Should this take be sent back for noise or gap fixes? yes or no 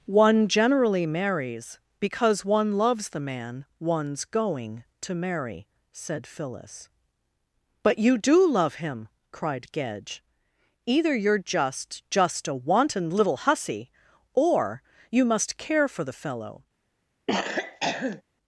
yes